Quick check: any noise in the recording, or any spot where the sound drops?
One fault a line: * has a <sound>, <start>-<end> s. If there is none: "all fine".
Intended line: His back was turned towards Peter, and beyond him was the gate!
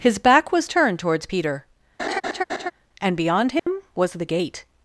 * has a laugh, 2.0-2.7 s
* has a dropout, 3.6-3.7 s